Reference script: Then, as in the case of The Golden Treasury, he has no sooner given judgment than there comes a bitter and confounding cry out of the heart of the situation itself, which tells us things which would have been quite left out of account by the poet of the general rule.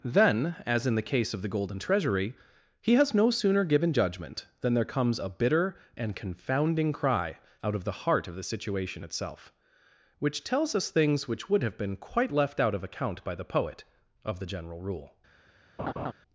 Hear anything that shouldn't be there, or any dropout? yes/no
yes